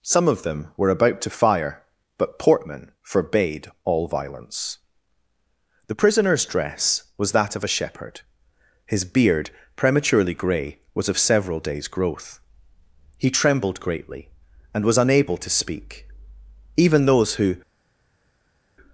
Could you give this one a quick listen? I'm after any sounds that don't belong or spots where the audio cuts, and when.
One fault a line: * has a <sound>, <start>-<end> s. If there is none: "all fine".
all fine